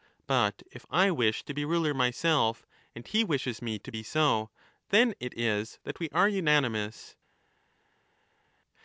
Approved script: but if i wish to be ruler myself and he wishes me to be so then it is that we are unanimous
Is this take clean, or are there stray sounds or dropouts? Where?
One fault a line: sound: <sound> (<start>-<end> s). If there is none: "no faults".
no faults